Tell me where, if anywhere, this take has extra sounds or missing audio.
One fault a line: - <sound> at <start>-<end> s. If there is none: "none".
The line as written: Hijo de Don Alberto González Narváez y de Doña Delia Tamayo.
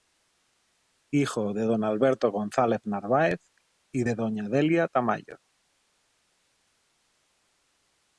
none